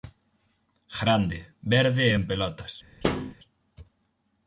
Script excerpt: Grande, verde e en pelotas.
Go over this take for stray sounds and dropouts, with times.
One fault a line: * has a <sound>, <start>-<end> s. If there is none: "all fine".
* has a thud, 3.0-3.4 s